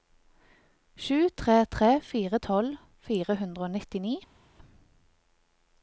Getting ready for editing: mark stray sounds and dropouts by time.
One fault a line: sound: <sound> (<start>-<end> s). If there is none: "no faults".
no faults